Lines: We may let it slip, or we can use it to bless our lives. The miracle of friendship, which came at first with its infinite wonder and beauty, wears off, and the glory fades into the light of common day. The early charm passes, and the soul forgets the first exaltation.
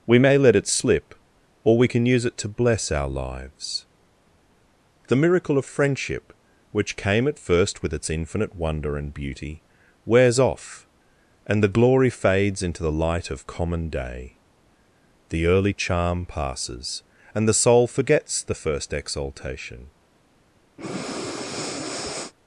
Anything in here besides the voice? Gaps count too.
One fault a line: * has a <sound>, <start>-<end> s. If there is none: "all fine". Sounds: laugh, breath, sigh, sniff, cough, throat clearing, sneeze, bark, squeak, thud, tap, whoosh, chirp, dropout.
* has a breath, 20.8-22.3 s